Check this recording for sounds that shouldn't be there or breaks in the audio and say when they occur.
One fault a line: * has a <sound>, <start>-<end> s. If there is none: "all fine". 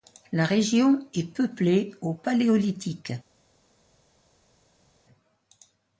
all fine